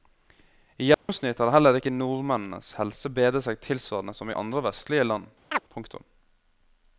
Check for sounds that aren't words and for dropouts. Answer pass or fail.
fail